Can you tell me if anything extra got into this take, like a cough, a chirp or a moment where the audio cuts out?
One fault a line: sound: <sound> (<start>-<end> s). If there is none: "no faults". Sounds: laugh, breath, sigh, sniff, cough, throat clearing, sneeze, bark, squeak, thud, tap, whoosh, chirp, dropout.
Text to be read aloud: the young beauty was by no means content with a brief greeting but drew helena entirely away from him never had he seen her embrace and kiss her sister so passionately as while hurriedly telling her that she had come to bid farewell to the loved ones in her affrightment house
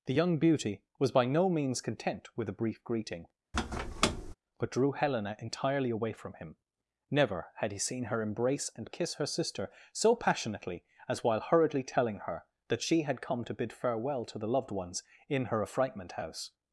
sound: squeak (3.5-4.3 s)